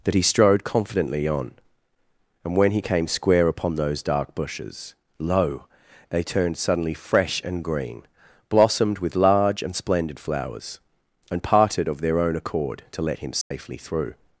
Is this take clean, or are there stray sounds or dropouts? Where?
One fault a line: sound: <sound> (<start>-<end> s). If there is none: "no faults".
sound: dropout (13.4-13.5 s)